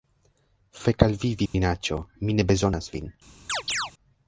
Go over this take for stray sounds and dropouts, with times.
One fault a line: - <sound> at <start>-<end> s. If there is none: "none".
- dropout at 1.5-1.5 s
- chirp at 3.5-3.9 s